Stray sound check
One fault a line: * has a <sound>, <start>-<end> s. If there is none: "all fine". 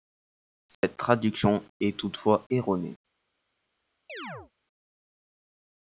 * has a dropout, 0.7-0.8 s
* has a chirp, 4.1-4.5 s